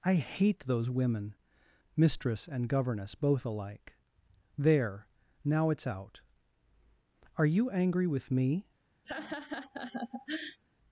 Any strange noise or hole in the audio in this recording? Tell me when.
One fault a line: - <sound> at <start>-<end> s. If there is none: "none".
- laugh at 9.0-10.6 s